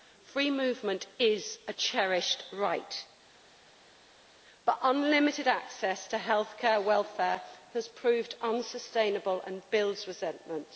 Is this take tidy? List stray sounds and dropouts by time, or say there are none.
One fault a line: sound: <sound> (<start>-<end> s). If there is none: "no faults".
no faults